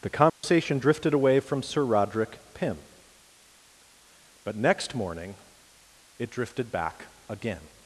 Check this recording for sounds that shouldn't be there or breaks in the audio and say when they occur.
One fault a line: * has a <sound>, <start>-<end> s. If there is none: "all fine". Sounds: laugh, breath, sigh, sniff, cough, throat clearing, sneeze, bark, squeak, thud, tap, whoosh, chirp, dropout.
* has a dropout, 0.3-0.4 s